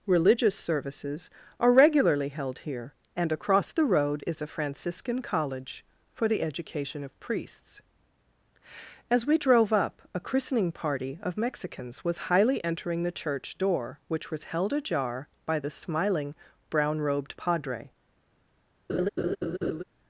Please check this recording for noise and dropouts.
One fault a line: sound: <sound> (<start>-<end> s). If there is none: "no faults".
sound: laugh (18.9-19.8 s)